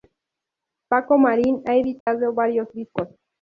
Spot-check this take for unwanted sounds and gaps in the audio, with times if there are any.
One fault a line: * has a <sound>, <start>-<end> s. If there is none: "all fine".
* has a dropout, 2.0-2.1 s